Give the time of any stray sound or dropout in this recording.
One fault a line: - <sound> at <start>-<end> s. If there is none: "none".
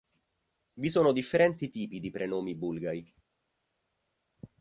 none